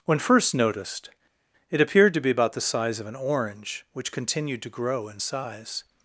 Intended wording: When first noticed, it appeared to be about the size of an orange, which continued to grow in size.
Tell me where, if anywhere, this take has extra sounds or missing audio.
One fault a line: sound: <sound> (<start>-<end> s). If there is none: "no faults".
no faults